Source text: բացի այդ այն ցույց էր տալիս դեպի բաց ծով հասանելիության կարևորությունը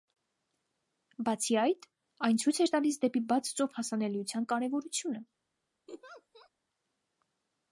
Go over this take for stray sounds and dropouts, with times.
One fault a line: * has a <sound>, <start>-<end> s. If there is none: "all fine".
* has a laugh, 5.9-6.5 s